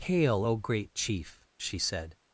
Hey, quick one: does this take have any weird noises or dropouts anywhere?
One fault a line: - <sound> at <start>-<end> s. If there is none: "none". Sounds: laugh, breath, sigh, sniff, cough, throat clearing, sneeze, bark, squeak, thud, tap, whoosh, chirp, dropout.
none